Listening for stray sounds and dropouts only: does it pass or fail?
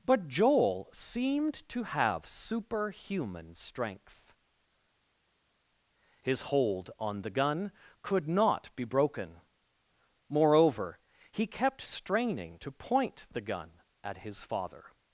pass